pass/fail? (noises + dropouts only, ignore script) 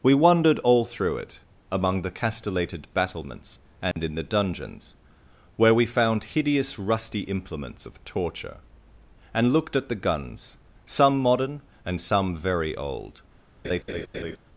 fail